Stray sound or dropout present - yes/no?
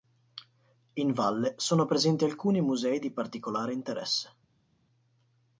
no